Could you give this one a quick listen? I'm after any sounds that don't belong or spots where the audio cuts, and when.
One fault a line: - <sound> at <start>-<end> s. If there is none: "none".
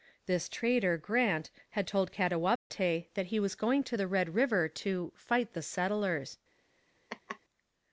- dropout at 2.6-2.7 s
- laugh at 7.1-7.4 s